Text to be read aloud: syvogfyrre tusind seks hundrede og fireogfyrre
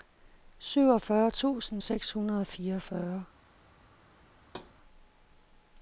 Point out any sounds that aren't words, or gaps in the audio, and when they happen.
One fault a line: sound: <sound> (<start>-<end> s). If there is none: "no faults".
sound: thud (4.4-4.7 s)